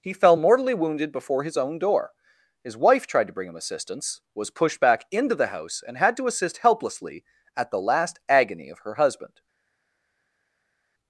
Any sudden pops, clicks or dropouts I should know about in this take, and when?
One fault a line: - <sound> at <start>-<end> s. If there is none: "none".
none